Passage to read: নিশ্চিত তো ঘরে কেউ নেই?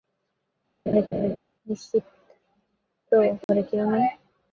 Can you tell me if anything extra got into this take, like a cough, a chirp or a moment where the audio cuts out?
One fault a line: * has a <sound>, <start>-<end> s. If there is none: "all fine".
* has a laugh, 0.9-1.4 s
* has a dropout, 3.4-3.5 s